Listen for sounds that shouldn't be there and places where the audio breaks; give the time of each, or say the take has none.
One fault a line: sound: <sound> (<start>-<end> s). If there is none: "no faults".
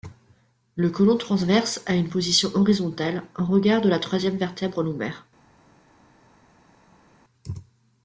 no faults